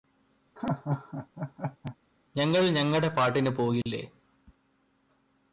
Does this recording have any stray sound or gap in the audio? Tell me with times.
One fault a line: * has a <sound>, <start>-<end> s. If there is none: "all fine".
* has a laugh, 0.6-2.0 s
* has a dropout, 3.8-3.9 s